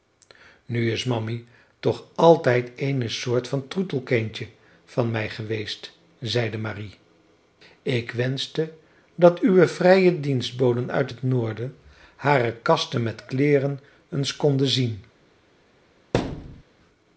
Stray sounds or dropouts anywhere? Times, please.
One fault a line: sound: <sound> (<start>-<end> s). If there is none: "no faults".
sound: thud (16.1-16.6 s)